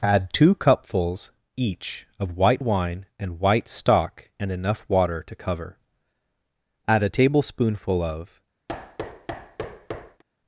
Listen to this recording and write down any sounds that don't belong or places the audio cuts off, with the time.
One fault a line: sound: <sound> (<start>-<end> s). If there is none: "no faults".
sound: thud (8.7-10.2 s)